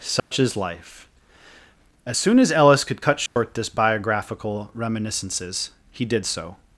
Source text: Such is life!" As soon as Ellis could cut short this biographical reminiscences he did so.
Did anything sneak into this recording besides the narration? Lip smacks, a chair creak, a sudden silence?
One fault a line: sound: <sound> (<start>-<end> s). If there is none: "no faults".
sound: dropout (0.2-0.3 s)
sound: dropout (3.3-3.4 s)